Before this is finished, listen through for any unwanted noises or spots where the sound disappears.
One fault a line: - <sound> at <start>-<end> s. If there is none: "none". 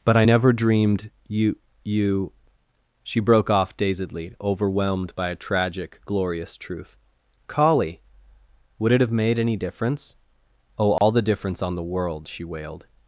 - dropout at 11.0-11.0 s